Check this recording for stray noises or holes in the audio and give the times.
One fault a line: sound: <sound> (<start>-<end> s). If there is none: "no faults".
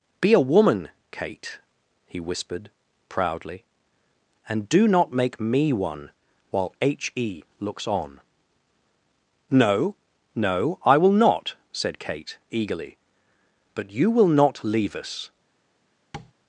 sound: tap (16.1-16.3 s)